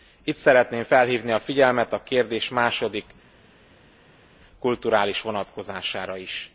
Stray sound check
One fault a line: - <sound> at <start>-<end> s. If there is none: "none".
none